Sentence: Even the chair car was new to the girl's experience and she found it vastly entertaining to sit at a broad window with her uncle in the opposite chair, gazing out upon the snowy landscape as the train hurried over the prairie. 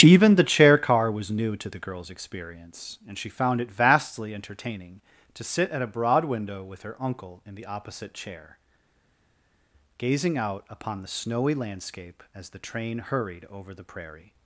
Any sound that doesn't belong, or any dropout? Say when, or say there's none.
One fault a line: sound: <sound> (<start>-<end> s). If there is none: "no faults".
no faults